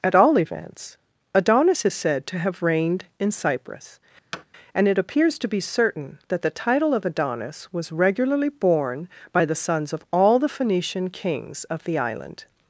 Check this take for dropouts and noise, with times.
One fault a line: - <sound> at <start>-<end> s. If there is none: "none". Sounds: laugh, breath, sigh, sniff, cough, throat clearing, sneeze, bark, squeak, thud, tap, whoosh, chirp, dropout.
- thud at 4.3-4.5 s